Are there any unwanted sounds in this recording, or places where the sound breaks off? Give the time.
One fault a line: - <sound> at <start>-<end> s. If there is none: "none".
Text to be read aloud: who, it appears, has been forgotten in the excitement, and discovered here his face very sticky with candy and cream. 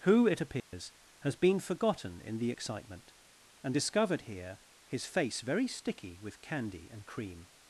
- dropout at 0.6-0.7 s